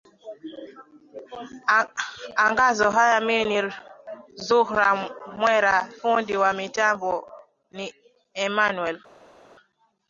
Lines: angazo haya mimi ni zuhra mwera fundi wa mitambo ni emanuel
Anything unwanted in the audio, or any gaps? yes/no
no